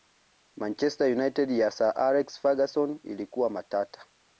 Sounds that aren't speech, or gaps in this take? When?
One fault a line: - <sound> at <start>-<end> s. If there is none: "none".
none